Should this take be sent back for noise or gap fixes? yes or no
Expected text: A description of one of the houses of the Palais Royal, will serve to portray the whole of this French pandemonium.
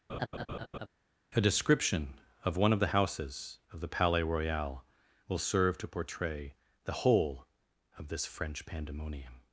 yes